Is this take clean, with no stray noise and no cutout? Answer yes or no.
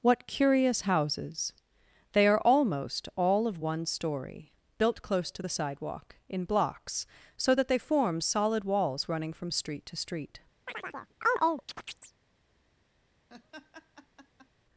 no